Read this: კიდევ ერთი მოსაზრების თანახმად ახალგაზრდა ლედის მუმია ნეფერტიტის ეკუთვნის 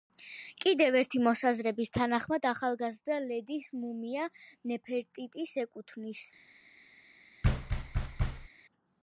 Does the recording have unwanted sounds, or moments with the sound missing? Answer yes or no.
yes